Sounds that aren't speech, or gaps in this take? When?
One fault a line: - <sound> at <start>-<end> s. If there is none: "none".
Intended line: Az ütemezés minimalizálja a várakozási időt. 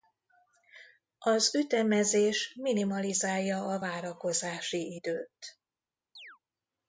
- chirp at 6.2-6.4 s